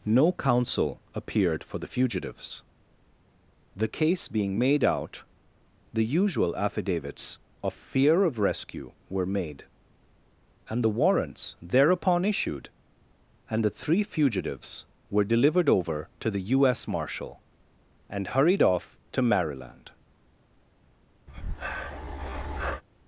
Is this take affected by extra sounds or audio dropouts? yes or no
yes